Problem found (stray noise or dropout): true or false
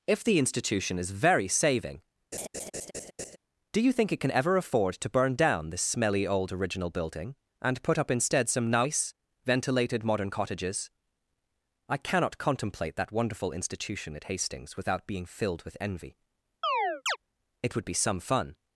true